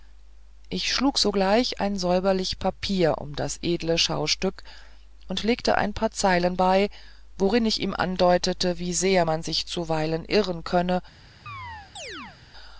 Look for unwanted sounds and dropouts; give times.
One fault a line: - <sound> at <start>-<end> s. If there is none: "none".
- chirp at 11.5-12.4 s